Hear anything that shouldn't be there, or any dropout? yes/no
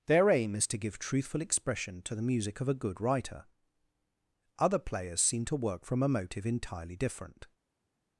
no